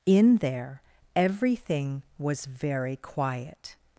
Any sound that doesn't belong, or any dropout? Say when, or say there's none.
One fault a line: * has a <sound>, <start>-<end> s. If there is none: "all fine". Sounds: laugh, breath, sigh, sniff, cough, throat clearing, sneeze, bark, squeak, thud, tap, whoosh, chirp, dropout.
all fine